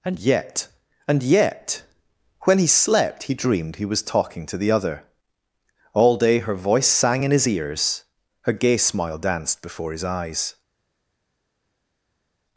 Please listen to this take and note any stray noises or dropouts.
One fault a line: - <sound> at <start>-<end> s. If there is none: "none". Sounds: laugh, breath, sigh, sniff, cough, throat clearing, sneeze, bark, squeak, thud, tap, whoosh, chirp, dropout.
none